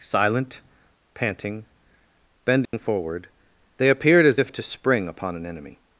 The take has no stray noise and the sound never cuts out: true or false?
false